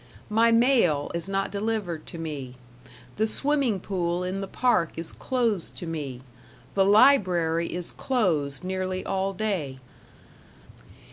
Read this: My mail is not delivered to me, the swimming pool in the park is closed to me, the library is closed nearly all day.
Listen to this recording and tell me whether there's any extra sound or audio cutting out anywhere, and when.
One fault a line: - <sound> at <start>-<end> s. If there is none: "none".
none